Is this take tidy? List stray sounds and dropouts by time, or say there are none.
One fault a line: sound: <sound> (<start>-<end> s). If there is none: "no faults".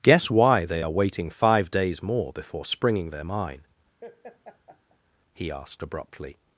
sound: laugh (4.0-5.0 s)